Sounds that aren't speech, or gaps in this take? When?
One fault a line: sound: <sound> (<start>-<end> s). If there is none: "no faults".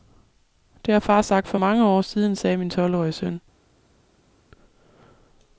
no faults